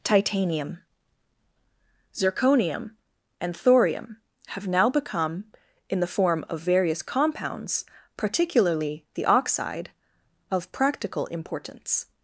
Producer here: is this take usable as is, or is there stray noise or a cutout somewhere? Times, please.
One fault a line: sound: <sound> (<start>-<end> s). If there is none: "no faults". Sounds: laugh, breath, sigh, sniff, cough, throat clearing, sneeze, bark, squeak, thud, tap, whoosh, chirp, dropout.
no faults